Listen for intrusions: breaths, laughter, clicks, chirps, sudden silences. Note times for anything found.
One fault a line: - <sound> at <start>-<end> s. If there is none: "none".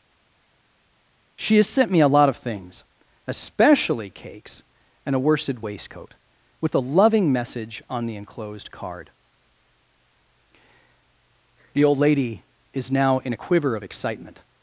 none